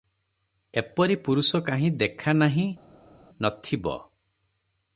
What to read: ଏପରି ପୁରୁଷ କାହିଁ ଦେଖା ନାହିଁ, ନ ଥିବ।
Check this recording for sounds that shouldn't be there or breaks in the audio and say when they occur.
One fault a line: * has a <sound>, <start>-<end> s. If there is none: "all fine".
all fine